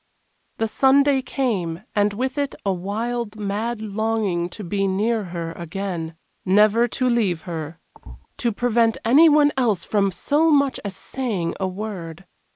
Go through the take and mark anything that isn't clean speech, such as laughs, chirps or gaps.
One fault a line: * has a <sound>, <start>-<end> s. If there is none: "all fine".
* has a thud, 7.9-8.3 s